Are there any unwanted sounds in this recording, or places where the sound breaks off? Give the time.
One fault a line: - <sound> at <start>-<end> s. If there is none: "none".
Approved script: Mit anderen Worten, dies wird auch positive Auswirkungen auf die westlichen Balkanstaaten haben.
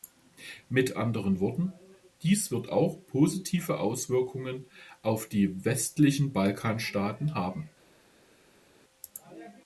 none